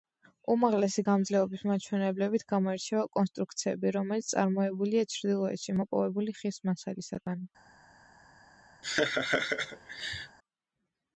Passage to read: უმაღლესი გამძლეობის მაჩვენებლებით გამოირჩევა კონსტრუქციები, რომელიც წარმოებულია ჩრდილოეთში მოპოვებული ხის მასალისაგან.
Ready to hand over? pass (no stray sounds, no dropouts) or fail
fail